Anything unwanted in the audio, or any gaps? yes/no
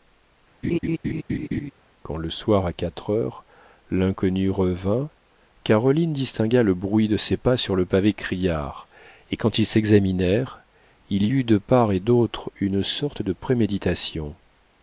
yes